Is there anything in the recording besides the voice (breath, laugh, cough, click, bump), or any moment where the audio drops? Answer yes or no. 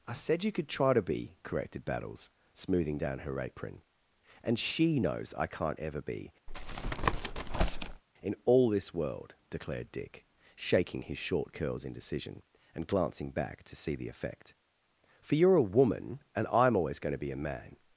yes